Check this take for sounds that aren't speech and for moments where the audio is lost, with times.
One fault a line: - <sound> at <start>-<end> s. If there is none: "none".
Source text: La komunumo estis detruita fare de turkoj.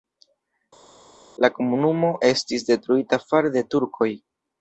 none